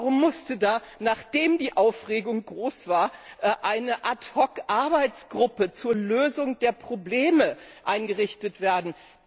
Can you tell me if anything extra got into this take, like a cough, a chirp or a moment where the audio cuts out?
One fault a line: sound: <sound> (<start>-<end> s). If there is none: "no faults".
no faults